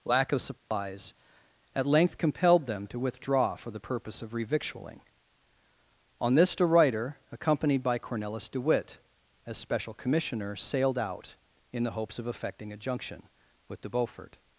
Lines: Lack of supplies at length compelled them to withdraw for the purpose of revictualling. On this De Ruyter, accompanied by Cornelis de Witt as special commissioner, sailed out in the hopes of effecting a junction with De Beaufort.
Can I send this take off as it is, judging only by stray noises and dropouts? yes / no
no